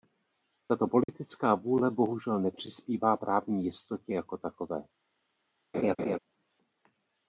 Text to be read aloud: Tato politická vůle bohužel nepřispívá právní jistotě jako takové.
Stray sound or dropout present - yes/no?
yes